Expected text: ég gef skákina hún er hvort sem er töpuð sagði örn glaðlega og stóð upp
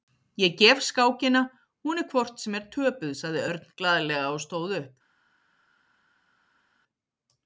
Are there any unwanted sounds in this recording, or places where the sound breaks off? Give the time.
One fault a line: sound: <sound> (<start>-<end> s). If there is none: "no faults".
no faults